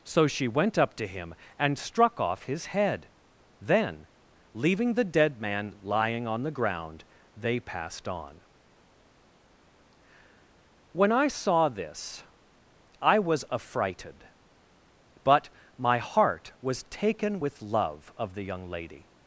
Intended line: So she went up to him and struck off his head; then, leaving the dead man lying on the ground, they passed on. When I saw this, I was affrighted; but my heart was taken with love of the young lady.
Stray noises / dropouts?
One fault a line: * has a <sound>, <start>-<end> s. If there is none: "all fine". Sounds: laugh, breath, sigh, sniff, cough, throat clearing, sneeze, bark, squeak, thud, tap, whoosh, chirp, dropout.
all fine